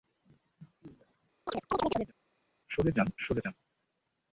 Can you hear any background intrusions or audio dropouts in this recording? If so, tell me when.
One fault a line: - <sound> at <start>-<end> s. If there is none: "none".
- chirp at 1.5-2.1 s